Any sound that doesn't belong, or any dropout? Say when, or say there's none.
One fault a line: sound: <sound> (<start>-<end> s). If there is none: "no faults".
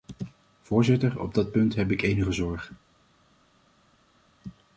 no faults